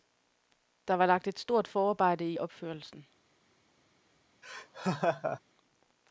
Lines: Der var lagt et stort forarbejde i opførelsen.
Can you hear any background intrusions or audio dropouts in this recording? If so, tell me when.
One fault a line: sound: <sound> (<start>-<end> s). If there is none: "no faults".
sound: laugh (4.4-5.4 s)